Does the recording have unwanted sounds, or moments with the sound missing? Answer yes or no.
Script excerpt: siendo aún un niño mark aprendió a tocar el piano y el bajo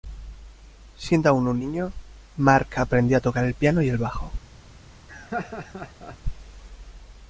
yes